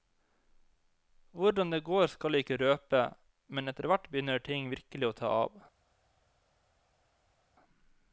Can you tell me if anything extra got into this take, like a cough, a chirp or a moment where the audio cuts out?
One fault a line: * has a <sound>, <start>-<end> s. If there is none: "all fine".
all fine